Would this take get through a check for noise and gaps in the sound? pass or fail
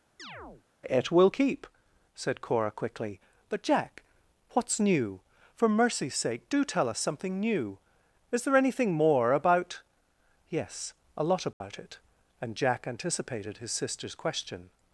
fail